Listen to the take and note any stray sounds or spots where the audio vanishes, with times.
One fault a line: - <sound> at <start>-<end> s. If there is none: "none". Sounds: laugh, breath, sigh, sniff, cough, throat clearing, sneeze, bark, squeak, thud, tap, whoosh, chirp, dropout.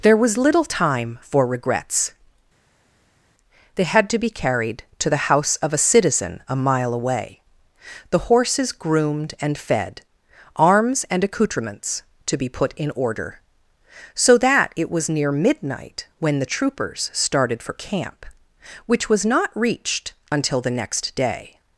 none